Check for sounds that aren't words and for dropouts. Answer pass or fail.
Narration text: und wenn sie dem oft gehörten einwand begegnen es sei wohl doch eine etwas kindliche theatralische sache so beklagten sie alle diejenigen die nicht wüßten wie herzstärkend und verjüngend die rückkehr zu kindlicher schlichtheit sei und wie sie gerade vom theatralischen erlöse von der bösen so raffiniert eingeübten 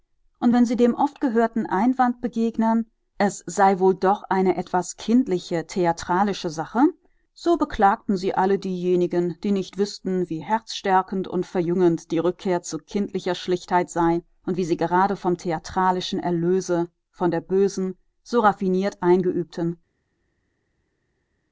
pass